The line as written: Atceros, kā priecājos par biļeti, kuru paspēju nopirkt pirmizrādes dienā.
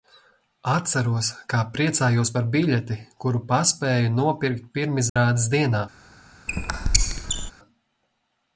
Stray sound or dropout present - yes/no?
yes